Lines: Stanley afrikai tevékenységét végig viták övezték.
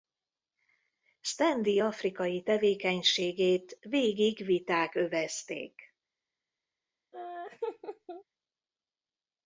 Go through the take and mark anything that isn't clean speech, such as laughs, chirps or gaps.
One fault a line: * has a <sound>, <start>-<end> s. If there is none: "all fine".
* has a laugh, 7.1-8.2 s